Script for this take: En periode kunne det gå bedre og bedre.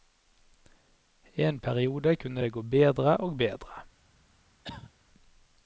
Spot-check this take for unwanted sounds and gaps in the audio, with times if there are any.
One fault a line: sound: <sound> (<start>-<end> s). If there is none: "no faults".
sound: cough (4.6-4.9 s)